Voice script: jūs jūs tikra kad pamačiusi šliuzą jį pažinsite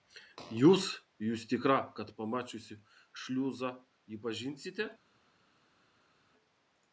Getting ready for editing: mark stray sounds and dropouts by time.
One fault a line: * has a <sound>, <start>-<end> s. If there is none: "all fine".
all fine